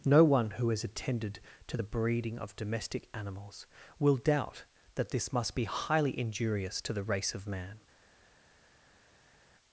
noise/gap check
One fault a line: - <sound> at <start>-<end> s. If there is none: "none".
none